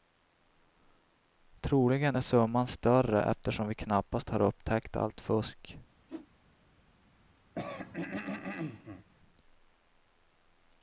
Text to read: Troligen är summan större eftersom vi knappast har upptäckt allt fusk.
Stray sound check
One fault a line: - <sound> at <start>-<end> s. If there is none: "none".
- whoosh at 6.1-6.3 s
- throat clearing at 7.5-9.1 s